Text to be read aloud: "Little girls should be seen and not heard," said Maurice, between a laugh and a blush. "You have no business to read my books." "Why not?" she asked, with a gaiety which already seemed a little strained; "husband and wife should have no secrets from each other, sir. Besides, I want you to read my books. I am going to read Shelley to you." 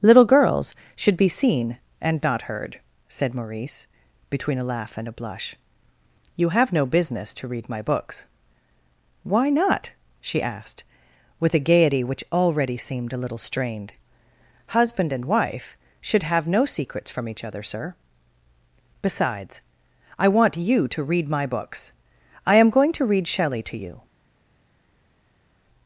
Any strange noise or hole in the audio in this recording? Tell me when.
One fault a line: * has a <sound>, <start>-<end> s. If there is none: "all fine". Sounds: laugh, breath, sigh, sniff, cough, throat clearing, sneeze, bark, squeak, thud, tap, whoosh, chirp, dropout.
all fine